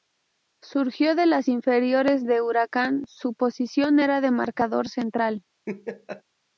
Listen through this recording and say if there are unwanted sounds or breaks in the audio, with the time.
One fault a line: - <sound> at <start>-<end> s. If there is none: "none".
- laugh at 5.7-6.2 s